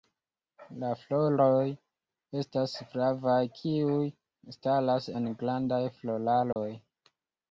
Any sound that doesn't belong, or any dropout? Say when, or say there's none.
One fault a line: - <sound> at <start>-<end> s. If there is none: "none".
- dropout at 6.5-6.6 s